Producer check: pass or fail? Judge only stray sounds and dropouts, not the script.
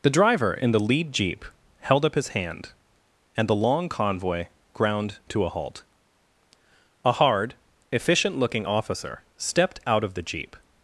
pass